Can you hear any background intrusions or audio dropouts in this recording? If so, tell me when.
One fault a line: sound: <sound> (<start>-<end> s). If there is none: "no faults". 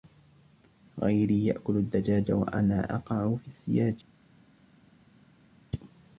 no faults